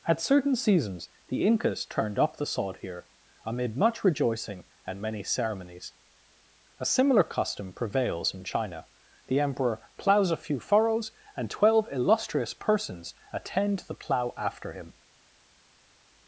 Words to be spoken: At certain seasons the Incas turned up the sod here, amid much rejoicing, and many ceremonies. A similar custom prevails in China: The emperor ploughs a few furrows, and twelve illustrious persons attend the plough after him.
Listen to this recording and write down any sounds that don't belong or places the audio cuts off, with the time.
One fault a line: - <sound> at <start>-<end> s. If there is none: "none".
none